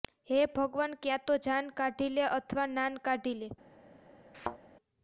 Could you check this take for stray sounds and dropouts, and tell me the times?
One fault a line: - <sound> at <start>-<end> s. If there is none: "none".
- thud at 4.3-4.6 s